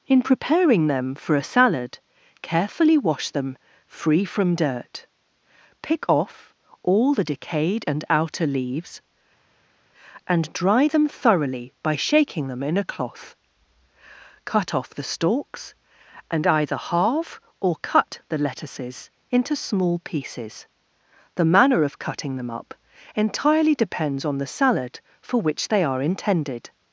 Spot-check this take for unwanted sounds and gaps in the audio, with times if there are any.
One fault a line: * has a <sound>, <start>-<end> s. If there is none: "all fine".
all fine